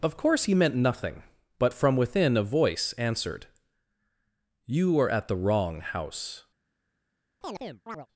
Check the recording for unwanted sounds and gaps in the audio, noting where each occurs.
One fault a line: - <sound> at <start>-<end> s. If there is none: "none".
- chirp at 7.4-8.1 s